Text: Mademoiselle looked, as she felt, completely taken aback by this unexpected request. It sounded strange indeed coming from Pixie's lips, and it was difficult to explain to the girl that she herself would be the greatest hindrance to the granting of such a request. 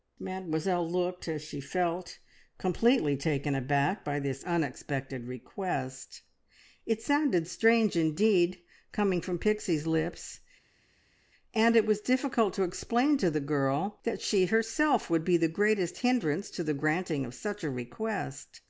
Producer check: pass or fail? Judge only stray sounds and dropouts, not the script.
pass